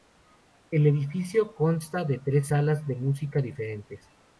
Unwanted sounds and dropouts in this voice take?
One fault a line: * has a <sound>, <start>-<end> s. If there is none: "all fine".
all fine